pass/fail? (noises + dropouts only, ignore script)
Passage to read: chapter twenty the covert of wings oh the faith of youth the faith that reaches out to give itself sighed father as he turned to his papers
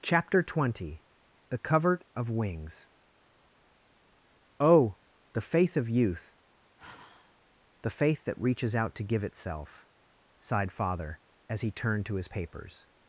fail